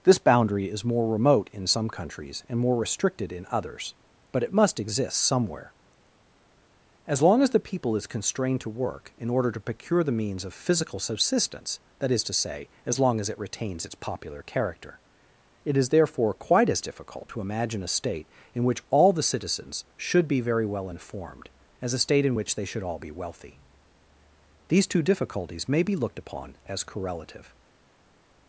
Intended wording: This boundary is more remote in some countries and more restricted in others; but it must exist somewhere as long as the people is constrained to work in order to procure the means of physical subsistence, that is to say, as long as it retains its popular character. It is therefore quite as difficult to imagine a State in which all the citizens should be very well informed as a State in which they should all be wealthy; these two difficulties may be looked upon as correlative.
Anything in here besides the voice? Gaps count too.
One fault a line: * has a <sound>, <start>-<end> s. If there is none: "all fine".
all fine